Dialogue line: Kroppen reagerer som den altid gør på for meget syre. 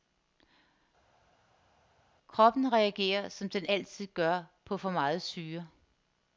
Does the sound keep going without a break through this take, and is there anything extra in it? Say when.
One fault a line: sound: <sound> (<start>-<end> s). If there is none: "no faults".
no faults